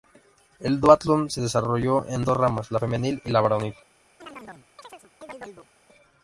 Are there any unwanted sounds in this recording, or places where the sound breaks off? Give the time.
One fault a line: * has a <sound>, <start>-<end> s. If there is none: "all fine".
* has a chirp, 4.2-5.7 s